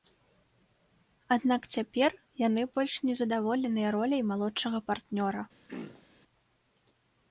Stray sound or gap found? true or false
true